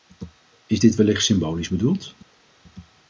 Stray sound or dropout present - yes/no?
no